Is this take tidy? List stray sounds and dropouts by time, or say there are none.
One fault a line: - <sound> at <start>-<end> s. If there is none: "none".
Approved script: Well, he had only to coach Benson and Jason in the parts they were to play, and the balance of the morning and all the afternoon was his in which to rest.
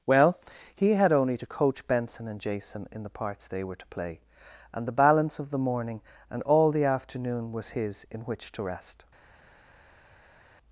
none